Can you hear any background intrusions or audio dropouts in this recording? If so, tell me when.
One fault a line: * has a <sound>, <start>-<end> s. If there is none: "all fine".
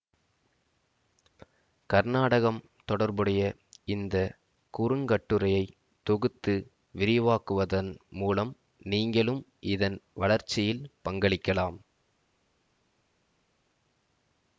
all fine